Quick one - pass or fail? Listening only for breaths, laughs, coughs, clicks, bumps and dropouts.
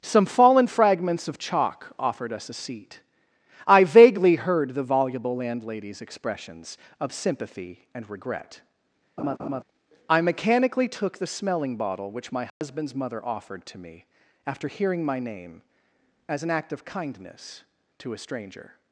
fail